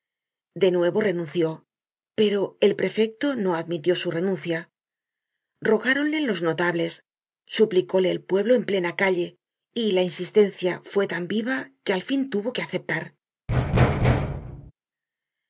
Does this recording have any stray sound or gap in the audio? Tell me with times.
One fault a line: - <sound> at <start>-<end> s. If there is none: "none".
- thud at 13.5-14.7 s